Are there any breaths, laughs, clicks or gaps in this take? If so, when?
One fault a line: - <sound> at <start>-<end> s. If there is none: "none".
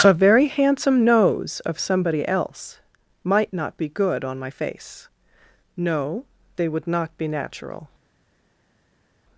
none